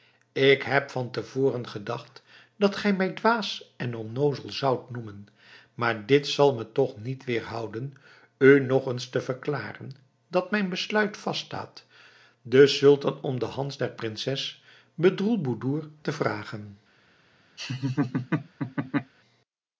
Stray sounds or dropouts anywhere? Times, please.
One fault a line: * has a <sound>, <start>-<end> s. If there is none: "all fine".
* has a laugh, 17.6-19.1 s